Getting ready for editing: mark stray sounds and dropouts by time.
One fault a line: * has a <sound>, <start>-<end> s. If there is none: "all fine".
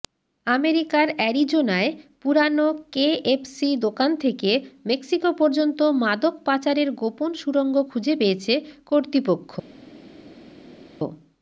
all fine